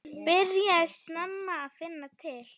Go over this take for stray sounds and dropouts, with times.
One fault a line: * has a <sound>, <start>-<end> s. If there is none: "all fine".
all fine